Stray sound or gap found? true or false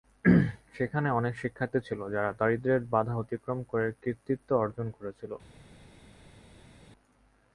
false